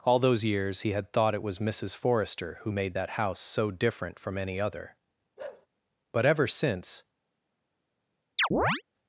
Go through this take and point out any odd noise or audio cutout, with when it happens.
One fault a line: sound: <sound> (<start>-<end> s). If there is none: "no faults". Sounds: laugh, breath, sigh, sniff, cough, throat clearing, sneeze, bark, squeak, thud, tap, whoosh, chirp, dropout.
sound: bark (5.4-5.7 s)
sound: chirp (8.4-8.8 s)